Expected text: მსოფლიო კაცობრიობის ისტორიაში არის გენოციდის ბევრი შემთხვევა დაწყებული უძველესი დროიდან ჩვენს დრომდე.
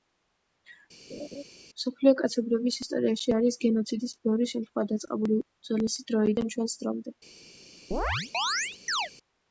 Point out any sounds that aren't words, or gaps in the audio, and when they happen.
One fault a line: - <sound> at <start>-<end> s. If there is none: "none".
- laugh at 1.1-1.4 s
- chirp at 7.9-9.1 s